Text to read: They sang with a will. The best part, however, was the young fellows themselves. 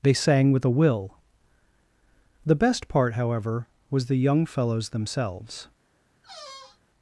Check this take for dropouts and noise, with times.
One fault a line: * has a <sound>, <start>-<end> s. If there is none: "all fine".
* has a squeak, 6.2-6.8 s